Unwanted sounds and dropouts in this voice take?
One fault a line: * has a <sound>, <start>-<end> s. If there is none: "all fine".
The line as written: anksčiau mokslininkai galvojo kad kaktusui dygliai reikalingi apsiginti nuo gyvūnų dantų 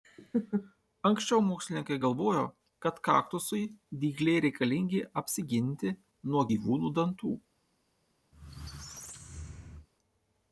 * has a squeak, 8.3-9.9 s